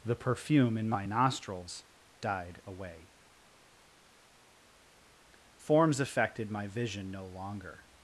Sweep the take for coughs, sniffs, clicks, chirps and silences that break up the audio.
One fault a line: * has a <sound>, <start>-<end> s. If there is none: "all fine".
all fine